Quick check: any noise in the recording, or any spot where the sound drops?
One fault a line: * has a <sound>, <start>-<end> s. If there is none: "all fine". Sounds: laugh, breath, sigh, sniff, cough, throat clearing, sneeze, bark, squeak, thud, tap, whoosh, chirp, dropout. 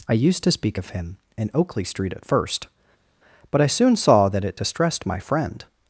all fine